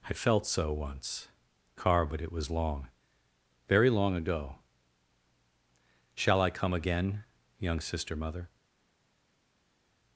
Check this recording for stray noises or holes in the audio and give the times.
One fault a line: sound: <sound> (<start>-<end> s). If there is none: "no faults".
no faults